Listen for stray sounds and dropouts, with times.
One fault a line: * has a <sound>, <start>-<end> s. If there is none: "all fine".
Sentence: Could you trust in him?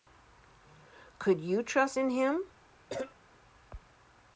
* has a cough, 2.9-3.2 s